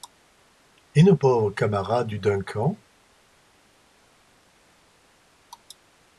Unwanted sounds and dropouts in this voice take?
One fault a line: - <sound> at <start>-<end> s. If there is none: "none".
none